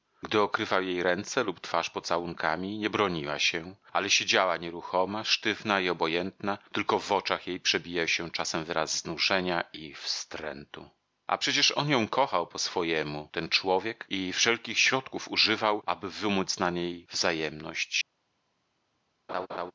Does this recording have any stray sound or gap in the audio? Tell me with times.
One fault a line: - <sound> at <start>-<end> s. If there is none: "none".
- laugh at 19.3-19.7 s